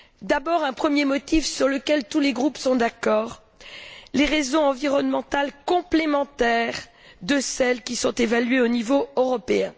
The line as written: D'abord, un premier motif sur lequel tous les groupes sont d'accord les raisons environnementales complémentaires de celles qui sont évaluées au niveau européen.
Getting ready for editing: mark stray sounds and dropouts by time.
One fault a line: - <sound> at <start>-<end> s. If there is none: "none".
none